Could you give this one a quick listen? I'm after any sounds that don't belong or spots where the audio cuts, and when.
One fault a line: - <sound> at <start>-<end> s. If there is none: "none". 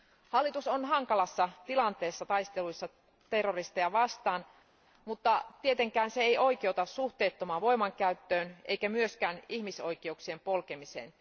none